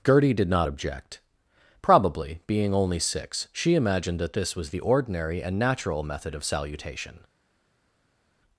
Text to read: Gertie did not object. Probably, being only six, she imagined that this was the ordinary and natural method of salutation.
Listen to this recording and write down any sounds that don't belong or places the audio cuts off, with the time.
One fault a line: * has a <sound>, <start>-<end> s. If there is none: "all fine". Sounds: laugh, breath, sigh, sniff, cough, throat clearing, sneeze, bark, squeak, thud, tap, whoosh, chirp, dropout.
all fine